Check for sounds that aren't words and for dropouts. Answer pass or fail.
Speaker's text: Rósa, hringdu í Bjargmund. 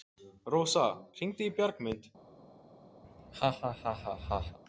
fail